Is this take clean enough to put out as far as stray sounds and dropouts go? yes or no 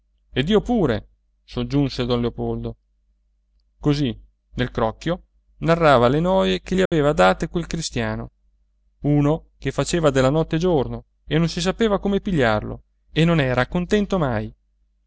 no